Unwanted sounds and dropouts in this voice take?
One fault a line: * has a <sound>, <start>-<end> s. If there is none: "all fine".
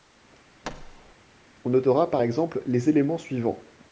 * has a thud, 0.6-1.2 s